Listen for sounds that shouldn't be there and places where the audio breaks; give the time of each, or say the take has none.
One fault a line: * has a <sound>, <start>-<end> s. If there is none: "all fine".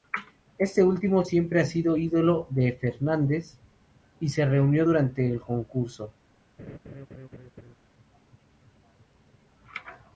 * has a laugh, 6.6-7.8 s